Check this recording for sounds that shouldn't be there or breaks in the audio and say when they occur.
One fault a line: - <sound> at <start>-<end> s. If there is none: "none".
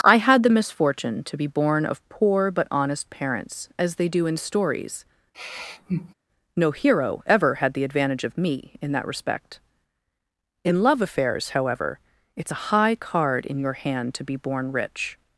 - sigh at 5.3-6.1 s